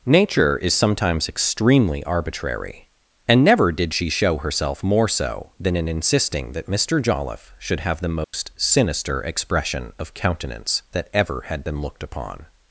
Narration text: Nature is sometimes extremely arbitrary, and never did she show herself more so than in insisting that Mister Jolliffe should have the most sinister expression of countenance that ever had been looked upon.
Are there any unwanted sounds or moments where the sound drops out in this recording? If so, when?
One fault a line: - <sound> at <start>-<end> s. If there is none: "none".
- dropout at 8.2-8.3 s